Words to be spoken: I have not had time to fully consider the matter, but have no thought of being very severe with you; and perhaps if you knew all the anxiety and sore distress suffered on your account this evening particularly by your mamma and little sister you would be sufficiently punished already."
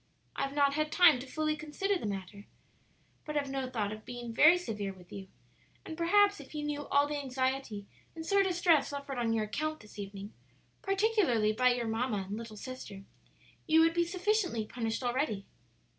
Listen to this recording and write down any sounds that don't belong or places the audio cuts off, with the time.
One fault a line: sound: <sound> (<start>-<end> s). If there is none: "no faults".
no faults